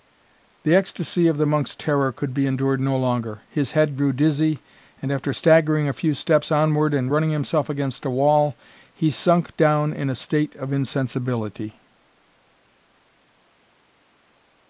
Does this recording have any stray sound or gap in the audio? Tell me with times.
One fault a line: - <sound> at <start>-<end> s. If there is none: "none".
none